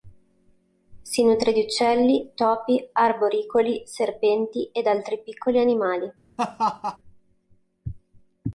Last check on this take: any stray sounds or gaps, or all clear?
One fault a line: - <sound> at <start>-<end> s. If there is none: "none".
- laugh at 6.4-7.0 s